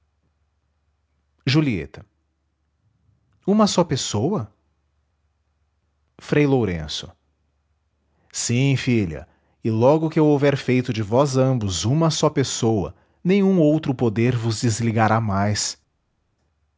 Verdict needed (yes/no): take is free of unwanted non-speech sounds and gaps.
yes